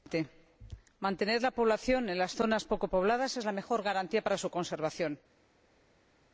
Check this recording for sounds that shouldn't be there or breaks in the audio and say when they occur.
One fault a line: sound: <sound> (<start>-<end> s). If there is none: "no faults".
no faults